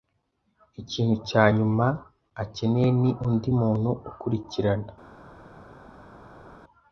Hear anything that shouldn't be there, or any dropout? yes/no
no